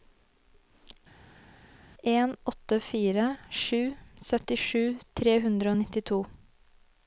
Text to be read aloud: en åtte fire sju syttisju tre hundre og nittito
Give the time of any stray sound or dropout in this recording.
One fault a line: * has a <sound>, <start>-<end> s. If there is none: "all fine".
all fine